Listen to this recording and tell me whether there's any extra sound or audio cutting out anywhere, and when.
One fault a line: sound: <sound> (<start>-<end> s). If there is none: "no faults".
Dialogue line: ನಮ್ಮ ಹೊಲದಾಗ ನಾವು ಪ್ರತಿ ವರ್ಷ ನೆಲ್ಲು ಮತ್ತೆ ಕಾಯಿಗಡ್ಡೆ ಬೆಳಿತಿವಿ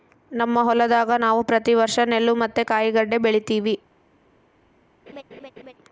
sound: laugh (5.1-5.7 s)